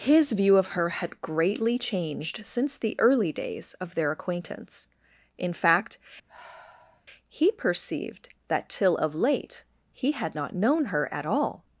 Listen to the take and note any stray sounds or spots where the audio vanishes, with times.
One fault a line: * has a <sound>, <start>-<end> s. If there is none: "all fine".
* has a sigh, 6.3-7.1 s